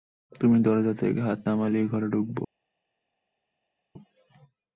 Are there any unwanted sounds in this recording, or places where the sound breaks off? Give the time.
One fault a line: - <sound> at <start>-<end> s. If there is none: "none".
none